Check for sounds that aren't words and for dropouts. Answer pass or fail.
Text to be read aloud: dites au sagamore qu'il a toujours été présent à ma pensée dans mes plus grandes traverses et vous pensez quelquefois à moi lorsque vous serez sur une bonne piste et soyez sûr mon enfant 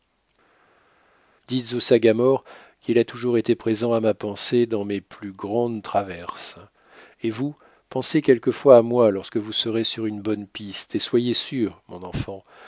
pass